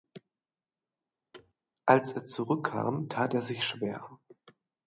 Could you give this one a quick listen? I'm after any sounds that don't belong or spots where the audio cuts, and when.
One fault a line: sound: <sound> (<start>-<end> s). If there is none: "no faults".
sound: thud (1.3-1.5 s)